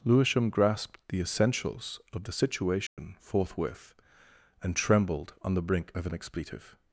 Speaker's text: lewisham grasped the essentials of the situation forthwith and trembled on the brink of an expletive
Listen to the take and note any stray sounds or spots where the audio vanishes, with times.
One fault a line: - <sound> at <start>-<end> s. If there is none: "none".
- dropout at 2.9-3.0 s